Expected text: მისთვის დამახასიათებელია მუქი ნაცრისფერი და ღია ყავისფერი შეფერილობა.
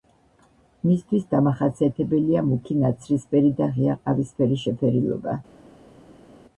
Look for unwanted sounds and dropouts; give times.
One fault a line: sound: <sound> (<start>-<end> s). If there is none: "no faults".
no faults